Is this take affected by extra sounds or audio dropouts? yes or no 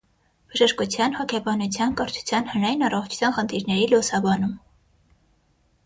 no